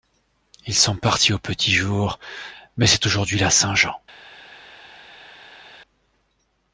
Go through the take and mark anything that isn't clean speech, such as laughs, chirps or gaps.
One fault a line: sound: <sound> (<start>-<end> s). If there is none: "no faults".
no faults